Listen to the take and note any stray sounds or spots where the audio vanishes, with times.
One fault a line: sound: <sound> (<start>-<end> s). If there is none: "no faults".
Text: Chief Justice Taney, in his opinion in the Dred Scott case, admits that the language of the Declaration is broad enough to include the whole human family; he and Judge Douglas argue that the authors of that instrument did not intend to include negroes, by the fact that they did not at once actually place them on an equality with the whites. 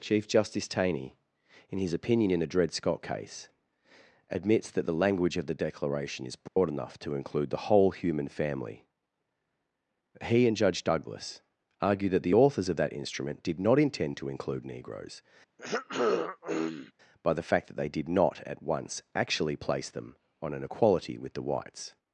sound: dropout (6.5-6.6 s)
sound: throat clearing (15.6-16.9 s)